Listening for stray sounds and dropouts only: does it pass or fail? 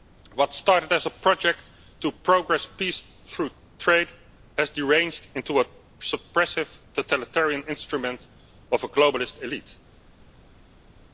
pass